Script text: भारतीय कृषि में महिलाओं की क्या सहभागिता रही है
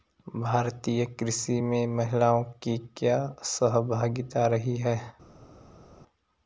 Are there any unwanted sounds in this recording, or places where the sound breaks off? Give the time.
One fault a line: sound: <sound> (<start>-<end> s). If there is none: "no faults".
no faults